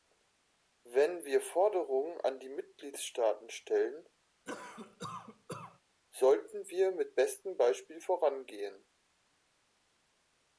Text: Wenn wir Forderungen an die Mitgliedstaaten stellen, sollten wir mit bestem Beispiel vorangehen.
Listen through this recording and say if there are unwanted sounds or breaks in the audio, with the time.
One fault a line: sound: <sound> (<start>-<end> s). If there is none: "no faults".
sound: cough (4.4-5.8 s)